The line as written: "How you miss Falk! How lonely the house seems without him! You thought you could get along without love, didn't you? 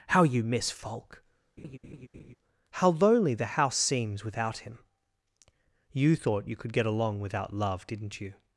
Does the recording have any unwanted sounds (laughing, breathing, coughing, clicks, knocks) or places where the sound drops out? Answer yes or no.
yes